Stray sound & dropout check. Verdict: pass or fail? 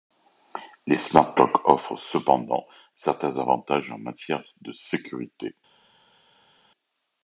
pass